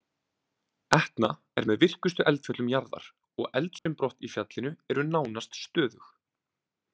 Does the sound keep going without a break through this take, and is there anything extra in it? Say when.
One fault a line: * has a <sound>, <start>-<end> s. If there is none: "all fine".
* has a dropout, 3.8-3.9 s